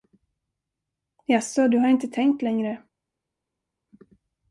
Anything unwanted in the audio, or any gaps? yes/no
no